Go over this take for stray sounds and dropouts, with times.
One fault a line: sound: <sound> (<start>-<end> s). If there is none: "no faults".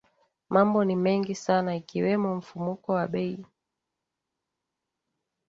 no faults